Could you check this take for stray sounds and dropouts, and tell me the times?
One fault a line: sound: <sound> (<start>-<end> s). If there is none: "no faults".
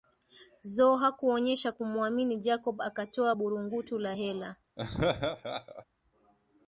sound: laugh (4.8-5.8 s)